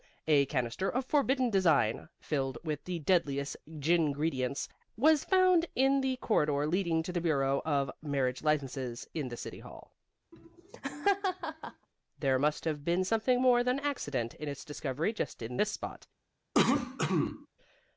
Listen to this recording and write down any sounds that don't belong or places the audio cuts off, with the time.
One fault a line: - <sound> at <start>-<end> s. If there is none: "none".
- laugh at 10.3-11.9 s
- cough at 16.5-17.5 s